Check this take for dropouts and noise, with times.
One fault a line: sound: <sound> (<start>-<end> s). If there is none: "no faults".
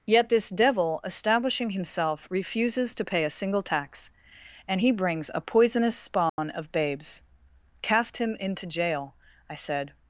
sound: dropout (6.3-6.4 s)